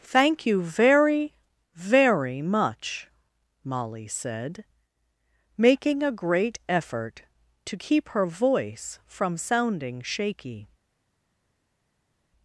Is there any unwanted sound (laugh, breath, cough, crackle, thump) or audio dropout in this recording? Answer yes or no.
no